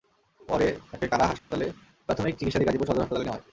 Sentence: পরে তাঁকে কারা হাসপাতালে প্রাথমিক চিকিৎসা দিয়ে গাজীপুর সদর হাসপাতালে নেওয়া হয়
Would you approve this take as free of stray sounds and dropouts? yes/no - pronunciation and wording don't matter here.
no